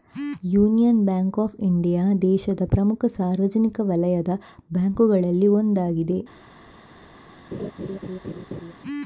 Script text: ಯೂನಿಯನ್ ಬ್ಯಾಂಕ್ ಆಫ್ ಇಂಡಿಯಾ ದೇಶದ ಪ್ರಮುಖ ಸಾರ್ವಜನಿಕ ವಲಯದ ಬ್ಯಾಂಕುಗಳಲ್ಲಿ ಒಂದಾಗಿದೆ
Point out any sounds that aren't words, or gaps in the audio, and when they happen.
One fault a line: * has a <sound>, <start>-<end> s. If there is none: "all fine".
* has a laugh, 7.5-8.7 s